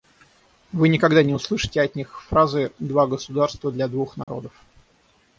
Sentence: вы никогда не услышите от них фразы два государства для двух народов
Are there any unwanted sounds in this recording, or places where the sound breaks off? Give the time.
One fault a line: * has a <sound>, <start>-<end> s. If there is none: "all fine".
* has a dropout, 4.2-4.3 s